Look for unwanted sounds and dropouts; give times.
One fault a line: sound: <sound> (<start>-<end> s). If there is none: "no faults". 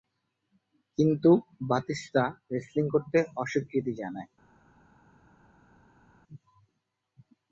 no faults